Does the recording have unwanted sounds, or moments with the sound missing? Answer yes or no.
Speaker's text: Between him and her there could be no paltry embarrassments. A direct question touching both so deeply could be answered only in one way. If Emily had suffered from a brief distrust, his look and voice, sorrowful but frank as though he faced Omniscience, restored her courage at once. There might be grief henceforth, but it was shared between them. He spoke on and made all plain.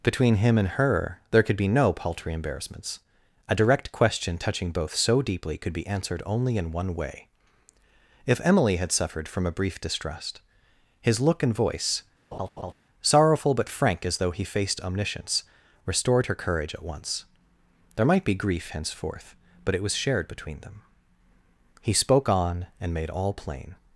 yes